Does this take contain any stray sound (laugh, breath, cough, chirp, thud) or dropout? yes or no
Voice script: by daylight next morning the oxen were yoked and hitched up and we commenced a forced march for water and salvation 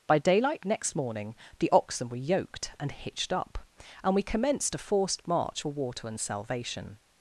no